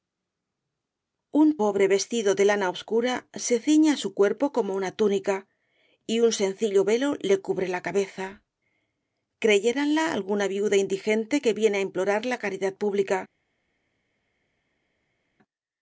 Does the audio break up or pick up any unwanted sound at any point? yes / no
no